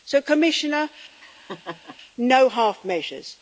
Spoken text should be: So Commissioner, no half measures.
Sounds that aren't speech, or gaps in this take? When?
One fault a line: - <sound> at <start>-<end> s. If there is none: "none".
- laugh at 1.2-2.0 s